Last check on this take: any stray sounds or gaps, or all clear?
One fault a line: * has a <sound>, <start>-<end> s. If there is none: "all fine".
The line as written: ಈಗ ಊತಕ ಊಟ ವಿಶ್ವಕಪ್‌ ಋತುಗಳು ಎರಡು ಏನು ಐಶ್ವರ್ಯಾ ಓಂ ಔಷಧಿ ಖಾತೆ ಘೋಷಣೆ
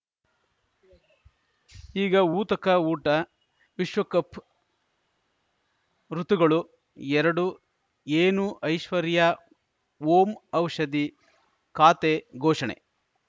all fine